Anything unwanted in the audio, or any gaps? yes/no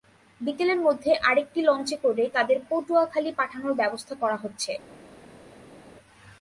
no